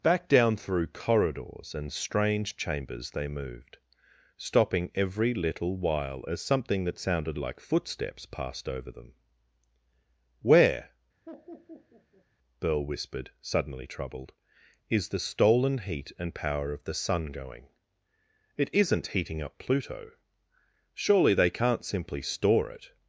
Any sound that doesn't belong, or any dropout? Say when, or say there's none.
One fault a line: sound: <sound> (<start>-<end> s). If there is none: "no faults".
sound: laugh (11.3-12.3 s)